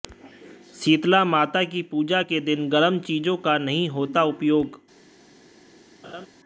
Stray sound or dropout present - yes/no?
yes